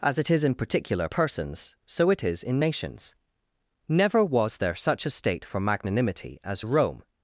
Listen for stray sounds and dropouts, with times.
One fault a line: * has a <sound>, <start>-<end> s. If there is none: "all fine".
all fine